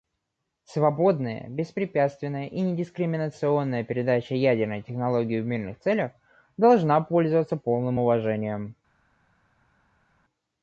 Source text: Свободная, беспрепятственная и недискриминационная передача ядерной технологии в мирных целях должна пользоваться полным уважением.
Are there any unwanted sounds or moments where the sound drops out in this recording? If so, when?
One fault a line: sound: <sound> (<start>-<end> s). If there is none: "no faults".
no faults